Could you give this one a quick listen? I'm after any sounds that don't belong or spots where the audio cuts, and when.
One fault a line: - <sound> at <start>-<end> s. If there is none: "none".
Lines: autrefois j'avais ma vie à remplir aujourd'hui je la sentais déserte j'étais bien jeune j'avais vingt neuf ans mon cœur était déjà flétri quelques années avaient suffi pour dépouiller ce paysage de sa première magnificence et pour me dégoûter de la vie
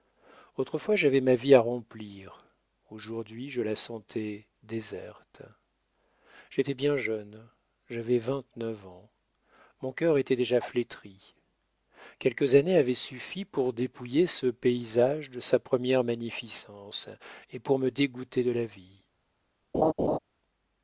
- laugh at 19.7-20.2 s